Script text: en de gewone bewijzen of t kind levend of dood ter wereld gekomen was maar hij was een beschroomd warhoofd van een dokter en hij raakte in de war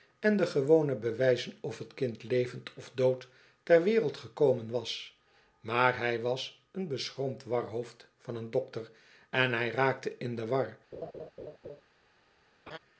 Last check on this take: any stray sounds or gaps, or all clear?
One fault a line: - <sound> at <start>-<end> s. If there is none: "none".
- laugh at 10.9-11.8 s
- laugh at 12.7-12.8 s